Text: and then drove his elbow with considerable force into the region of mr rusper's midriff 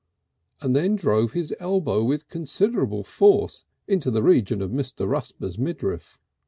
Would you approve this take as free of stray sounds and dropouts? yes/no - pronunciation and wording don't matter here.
yes